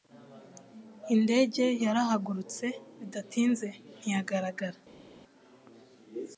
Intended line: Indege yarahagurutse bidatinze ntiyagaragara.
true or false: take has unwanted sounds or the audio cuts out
false